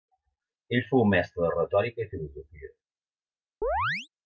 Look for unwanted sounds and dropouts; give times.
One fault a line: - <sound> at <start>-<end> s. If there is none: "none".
- chirp at 3.6-4.1 s